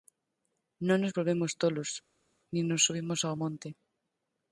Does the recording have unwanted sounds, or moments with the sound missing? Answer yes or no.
no